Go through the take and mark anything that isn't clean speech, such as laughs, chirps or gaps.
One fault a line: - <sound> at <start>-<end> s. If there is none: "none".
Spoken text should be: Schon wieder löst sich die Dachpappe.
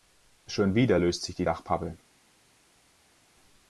none